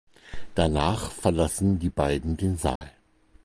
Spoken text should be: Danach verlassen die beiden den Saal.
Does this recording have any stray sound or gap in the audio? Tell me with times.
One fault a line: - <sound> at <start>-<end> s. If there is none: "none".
- dropout at 2.8-2.8 s